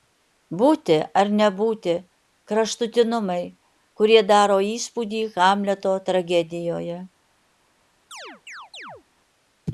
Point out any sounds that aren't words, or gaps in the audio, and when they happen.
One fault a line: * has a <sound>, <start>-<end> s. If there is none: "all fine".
* has a chirp, 8.1-9.0 s